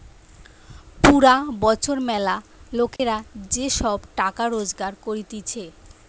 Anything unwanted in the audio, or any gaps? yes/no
yes